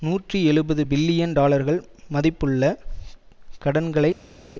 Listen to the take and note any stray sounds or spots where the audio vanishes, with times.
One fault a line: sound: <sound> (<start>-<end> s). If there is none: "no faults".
no faults